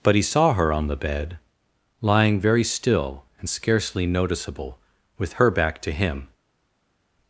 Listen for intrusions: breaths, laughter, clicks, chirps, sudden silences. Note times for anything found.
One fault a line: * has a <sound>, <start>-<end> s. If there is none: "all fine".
all fine